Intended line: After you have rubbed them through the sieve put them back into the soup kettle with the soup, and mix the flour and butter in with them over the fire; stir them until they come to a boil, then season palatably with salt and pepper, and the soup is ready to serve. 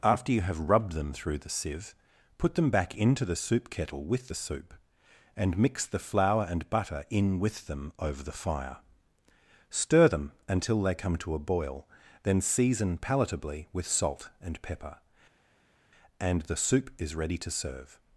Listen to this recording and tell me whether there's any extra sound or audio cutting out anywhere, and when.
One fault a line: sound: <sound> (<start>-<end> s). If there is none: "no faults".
no faults